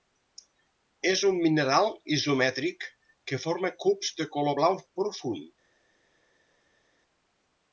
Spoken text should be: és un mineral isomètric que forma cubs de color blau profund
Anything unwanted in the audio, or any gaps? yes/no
no